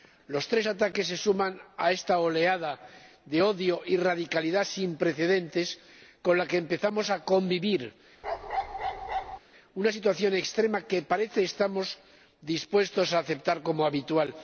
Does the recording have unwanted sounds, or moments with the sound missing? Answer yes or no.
yes